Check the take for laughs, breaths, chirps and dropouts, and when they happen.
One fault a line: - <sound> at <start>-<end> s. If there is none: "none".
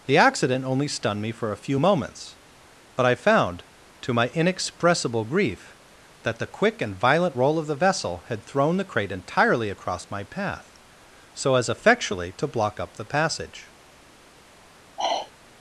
- sigh at 15.0-15.3 s